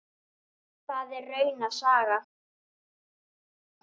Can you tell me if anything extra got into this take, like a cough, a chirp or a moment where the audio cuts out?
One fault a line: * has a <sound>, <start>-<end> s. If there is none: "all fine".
all fine